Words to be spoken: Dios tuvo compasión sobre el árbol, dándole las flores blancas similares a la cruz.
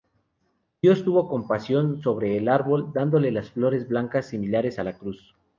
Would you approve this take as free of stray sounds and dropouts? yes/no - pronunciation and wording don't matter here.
yes